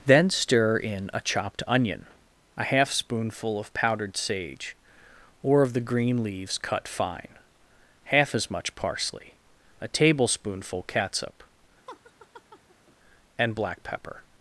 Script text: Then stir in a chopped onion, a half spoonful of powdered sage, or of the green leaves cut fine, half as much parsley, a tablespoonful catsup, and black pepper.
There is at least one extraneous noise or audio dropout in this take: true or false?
true